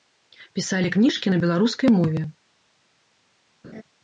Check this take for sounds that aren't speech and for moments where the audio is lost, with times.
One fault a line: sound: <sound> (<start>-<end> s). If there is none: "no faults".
sound: laugh (3.6-3.8 s)